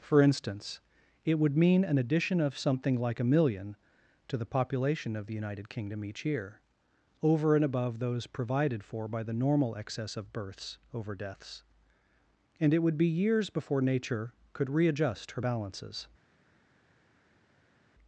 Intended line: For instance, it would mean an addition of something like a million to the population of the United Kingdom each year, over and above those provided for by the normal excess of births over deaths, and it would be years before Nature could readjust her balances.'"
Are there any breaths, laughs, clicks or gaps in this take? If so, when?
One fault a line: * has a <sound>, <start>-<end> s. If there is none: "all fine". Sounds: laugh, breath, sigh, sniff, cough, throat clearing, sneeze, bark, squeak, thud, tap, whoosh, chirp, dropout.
all fine